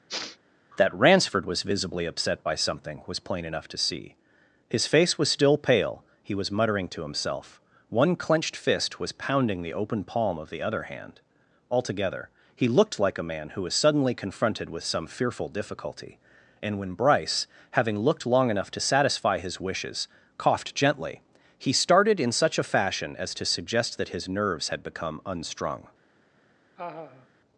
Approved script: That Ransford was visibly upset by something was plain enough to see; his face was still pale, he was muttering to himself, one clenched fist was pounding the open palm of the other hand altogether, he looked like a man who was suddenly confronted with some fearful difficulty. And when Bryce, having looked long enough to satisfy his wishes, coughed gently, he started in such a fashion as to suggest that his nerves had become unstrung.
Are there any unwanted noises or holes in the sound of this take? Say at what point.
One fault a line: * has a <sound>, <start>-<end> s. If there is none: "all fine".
* has a sniff, 0.1-0.4 s
* has a laugh, 26.8-27.3 s